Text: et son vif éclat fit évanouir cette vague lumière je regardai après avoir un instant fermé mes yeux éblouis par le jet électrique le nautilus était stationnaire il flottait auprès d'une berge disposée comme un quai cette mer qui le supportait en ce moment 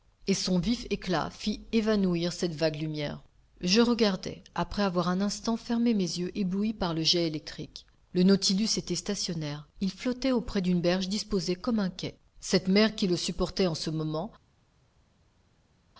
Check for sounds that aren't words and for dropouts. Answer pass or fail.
pass